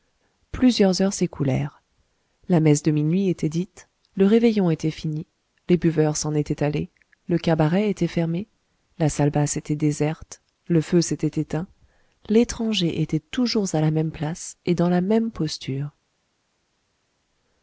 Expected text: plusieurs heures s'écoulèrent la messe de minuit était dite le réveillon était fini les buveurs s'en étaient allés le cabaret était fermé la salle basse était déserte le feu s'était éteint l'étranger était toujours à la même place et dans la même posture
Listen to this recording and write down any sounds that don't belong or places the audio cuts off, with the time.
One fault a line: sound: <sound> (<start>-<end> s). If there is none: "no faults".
no faults